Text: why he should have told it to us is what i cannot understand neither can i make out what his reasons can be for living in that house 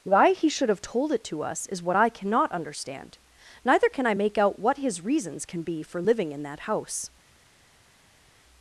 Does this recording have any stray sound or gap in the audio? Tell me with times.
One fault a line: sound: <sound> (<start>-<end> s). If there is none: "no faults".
no faults